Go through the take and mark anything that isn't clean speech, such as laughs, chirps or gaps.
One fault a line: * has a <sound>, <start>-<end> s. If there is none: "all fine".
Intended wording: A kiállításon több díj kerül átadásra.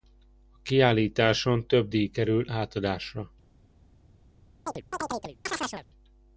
* has a chirp, 4.7-5.9 s